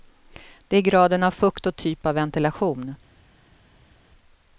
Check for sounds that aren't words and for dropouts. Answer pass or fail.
pass